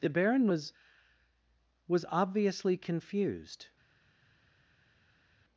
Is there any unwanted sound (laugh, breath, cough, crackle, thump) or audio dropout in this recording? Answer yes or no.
no